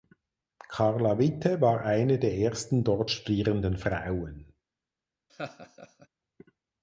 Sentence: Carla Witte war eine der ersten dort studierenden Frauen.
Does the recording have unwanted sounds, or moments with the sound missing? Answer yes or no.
yes